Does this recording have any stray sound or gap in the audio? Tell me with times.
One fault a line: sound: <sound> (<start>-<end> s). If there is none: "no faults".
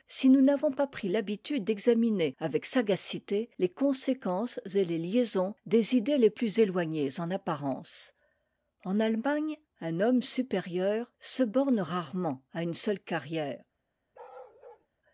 sound: bark (14.1-14.9 s)